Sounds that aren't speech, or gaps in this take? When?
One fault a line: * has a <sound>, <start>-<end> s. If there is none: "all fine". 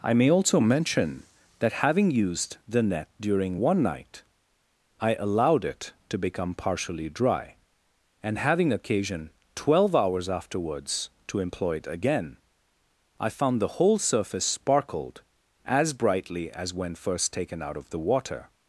all fine